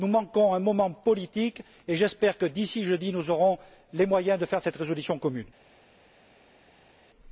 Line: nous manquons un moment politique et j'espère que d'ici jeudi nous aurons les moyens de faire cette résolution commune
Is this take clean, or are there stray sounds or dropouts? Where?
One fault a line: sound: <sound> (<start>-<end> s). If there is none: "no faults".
no faults